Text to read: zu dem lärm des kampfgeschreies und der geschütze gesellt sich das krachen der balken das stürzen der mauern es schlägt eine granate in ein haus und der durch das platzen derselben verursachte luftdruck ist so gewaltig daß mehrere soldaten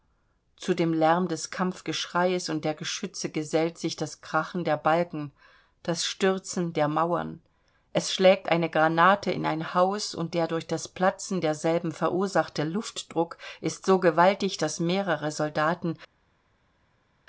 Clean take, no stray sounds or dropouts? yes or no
yes